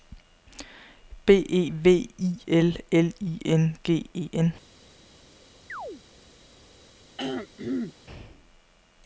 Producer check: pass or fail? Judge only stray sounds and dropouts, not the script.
fail